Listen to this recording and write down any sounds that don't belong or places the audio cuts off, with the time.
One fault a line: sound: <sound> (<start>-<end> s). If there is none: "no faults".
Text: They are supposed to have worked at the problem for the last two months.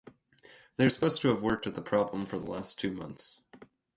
no faults